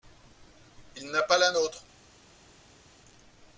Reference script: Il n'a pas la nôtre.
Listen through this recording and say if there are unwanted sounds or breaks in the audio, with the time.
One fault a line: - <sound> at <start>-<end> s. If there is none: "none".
none